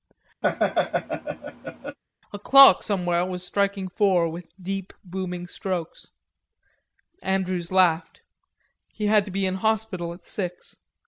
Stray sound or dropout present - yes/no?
yes